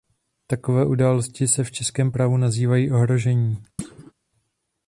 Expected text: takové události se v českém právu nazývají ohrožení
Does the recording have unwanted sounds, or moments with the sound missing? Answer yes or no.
yes